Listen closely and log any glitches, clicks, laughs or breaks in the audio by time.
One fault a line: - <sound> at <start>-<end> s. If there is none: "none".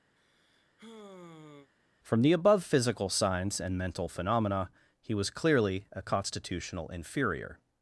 - sigh at 0.2-1.7 s